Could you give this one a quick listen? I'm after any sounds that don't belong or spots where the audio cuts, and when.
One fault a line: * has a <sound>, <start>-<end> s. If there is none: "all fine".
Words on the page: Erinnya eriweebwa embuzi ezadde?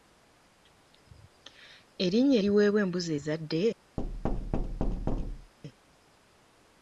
* has a thud, 4.0-5.5 s